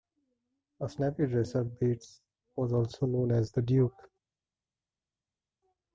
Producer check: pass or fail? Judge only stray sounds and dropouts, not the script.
pass